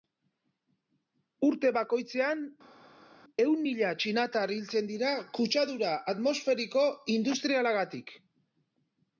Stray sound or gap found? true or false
false